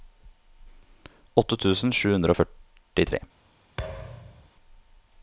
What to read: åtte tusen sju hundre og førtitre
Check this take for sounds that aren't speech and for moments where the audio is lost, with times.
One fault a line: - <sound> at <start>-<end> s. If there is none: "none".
- thud at 3.8-4.5 s